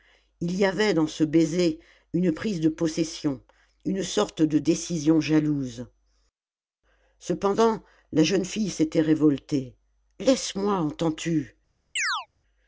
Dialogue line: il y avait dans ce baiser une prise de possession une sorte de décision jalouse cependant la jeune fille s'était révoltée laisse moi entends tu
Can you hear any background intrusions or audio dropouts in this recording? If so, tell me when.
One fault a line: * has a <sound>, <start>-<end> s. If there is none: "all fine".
* has a chirp, 12.0-12.3 s